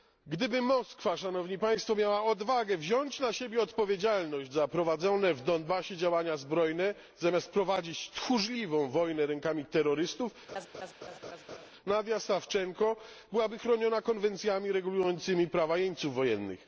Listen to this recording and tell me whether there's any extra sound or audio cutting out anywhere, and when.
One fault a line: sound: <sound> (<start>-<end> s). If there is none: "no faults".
sound: laugh (10.5-11.7 s)